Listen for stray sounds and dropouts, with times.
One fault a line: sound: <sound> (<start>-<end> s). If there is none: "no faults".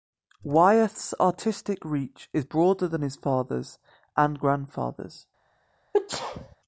sound: sneeze (5.9-6.6 s)